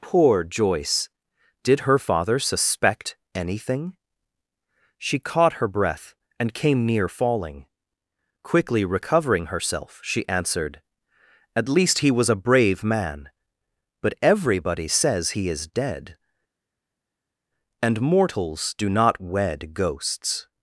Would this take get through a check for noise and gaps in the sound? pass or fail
pass